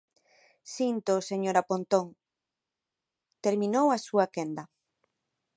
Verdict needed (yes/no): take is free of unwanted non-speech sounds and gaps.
yes